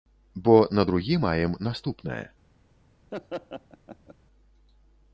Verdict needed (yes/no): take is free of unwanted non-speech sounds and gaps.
no